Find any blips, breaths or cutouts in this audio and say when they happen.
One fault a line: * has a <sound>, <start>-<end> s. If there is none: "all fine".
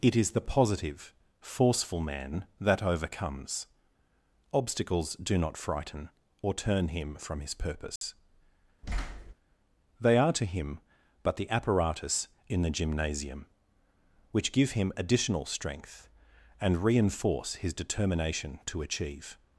* has a dropout, 8.0-8.0 s
* has a thud, 8.8-9.3 s